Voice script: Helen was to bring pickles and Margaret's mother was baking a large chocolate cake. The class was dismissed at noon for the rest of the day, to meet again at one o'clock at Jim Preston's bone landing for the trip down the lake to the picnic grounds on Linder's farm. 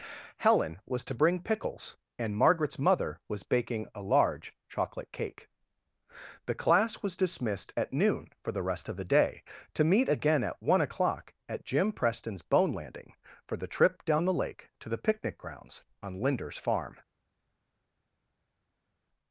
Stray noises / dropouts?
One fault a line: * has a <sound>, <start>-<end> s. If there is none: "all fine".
all fine